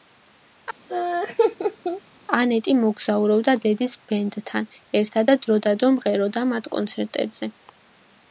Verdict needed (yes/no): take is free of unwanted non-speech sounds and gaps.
no